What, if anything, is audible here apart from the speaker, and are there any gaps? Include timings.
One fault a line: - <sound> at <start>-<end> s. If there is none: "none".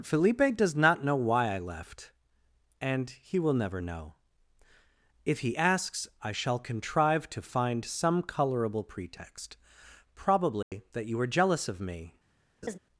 - dropout at 10.6-10.7 s
- laugh at 12.6-12.8 s